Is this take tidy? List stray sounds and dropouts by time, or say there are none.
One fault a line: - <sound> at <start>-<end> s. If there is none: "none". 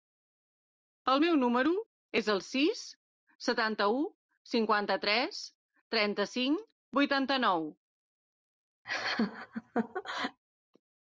- laugh at 8.8-10.4 s